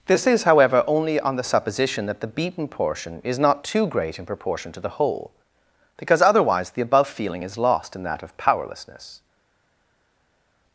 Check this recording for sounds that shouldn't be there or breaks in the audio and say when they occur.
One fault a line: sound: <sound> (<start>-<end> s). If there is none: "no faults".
no faults